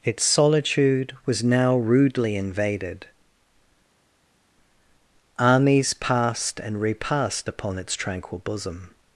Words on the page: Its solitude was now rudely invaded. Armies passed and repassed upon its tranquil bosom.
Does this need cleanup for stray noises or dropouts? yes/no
no